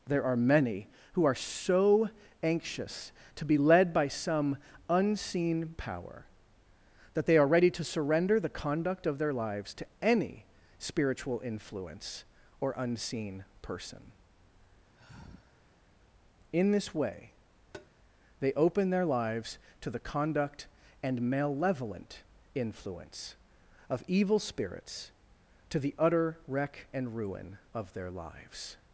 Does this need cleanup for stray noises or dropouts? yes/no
yes